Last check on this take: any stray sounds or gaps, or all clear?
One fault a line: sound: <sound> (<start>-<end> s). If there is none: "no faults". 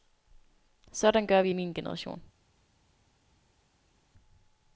no faults